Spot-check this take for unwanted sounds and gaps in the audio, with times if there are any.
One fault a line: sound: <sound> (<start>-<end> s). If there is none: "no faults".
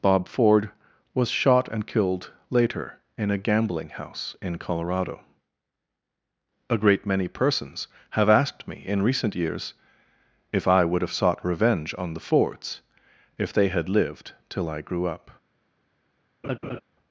sound: laugh (16.4-16.8 s)